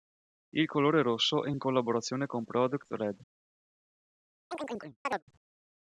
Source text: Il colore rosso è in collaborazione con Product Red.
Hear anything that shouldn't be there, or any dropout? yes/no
yes